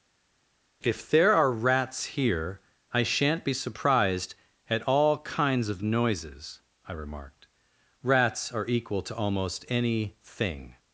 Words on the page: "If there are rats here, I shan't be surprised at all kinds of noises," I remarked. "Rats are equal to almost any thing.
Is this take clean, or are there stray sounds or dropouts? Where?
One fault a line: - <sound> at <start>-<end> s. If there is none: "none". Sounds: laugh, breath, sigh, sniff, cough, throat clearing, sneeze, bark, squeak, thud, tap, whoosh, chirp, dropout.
none